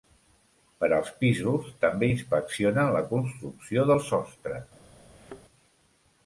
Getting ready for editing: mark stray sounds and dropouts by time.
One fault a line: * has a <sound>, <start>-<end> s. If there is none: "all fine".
* has a thud, 5.1-5.4 s